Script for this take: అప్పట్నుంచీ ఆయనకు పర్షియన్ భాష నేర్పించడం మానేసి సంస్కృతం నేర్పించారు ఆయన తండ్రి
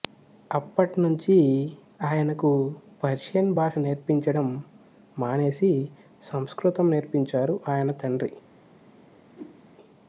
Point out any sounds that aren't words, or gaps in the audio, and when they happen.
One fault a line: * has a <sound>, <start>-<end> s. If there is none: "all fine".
* has a whoosh, 9.3-9.6 s